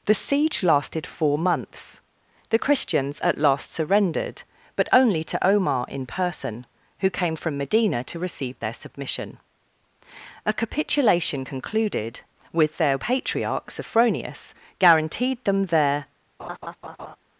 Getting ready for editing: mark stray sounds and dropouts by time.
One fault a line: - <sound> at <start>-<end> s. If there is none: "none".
- laugh at 16.4-17.2 s